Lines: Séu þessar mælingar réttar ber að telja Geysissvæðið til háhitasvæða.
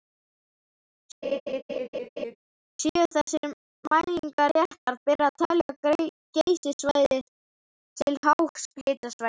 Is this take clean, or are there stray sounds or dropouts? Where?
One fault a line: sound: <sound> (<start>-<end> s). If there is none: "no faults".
sound: laugh (1.2-2.4 s)
sound: dropout (5.6-5.7 s)